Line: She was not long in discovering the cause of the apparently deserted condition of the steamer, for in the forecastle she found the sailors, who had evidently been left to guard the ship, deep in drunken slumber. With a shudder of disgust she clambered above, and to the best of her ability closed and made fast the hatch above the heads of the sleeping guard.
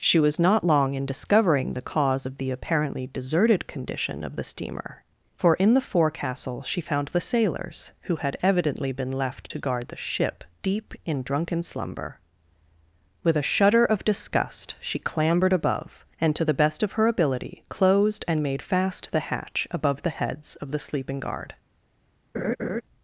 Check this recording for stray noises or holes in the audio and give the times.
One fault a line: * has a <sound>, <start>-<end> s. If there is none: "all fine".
* has a laugh, 22.3-22.8 s